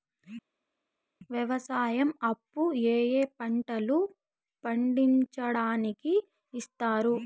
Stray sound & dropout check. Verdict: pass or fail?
pass